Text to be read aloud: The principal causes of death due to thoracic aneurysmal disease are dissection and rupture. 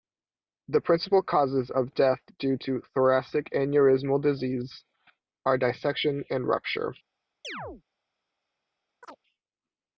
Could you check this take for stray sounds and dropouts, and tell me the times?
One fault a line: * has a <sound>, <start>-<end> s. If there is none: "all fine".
* has a chirp, 7.4-7.8 s
* has a chirp, 9.0-9.2 s